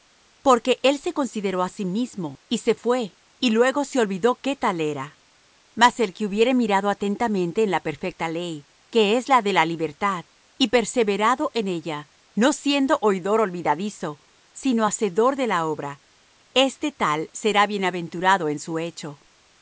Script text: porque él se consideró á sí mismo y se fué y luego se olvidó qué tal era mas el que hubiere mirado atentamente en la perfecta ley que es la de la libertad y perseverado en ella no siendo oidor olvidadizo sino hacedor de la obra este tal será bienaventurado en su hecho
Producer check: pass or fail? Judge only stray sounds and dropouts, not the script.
pass